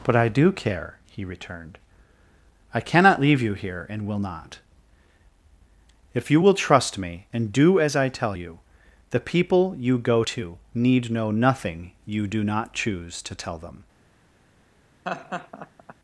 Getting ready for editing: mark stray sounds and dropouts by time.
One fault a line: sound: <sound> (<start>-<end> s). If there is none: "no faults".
sound: laugh (15.0-15.9 s)